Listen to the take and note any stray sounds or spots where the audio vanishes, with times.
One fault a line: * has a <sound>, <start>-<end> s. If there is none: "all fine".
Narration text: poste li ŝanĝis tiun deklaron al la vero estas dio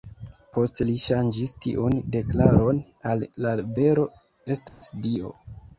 * has a dropout, 4.7-4.8 s